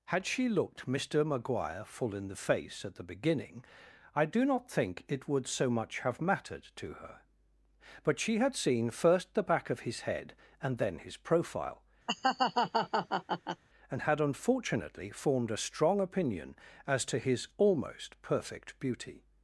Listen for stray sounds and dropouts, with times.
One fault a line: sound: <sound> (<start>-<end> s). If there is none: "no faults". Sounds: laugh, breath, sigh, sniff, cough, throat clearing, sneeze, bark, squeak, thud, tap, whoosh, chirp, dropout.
sound: laugh (12.1-13.6 s)